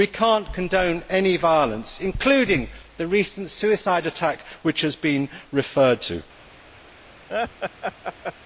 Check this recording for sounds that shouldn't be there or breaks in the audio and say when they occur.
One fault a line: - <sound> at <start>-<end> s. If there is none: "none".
- laugh at 7.3-8.3 s